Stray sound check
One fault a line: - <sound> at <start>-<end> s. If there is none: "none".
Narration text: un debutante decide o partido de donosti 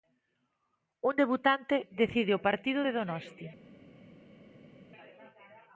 none